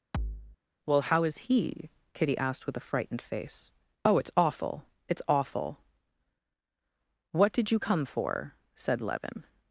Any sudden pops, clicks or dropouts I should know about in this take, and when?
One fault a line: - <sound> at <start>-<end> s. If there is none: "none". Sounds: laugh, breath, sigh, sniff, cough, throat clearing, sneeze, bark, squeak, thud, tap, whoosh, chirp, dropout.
- thud at 0.1-0.6 s